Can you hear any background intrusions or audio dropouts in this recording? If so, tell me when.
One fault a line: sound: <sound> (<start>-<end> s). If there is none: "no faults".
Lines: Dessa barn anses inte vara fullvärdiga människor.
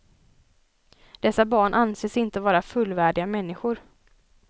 no faults